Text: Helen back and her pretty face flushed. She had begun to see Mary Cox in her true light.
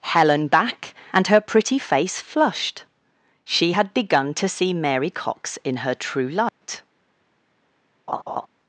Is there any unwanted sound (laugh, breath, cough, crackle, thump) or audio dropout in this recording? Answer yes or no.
yes